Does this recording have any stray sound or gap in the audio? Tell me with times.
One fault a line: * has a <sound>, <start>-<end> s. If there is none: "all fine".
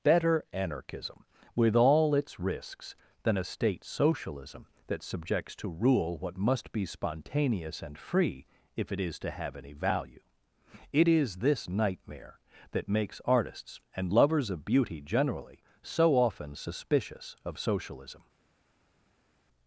all fine